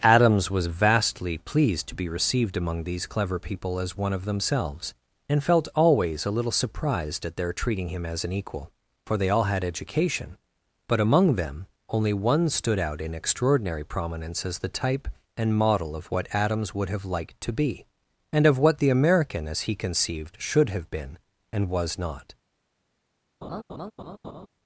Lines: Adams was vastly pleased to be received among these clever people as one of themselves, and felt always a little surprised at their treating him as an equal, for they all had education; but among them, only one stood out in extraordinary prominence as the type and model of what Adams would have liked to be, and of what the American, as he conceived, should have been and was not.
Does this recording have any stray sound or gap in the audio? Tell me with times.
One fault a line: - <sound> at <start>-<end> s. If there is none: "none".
- laugh at 23.4-24.5 s